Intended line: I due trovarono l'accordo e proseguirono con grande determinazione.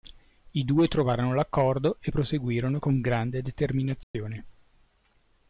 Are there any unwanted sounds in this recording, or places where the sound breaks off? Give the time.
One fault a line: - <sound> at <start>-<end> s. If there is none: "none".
- dropout at 4.0-4.1 s